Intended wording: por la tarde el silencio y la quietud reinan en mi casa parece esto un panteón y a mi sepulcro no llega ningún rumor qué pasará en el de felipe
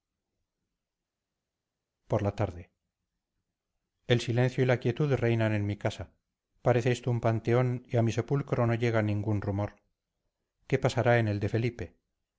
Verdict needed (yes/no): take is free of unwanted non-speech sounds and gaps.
yes